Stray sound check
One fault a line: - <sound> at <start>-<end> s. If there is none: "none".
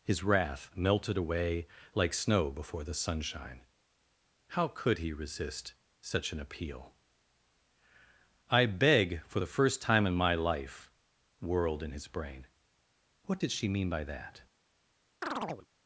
- chirp at 15.2-15.7 s